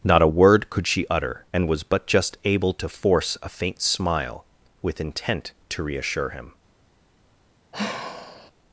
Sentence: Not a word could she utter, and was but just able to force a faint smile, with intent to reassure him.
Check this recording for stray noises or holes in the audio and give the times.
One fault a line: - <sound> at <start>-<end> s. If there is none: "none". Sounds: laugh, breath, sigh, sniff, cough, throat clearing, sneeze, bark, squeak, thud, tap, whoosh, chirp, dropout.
- sigh at 7.7-8.5 s